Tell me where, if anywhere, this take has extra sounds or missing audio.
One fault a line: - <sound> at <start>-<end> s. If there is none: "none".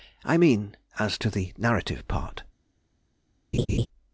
- laugh at 3.5-3.9 s